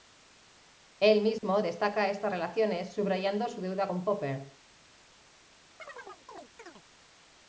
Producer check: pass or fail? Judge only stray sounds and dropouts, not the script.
fail